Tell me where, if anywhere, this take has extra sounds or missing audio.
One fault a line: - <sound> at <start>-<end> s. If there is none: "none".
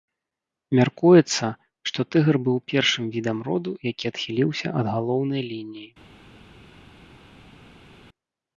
none